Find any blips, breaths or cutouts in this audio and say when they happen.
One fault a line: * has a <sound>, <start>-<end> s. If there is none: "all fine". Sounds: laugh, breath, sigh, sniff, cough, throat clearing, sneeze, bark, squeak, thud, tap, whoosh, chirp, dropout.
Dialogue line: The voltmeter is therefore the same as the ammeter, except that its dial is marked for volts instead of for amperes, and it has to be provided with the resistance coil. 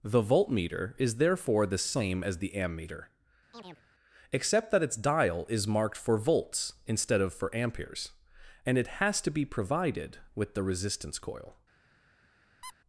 * has a chirp, 3.5-3.8 s
* has a squeak, 12.6-12.7 s